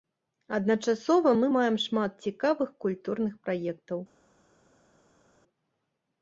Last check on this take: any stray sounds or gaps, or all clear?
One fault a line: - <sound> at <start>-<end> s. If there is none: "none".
none